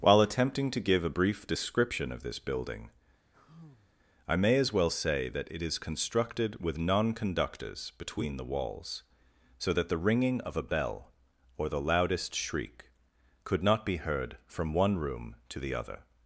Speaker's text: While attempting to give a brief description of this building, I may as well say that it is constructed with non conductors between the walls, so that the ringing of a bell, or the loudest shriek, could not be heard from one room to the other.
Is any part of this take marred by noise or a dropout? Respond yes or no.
yes